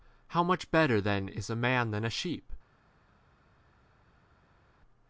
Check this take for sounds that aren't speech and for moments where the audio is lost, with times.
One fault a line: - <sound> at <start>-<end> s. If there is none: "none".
none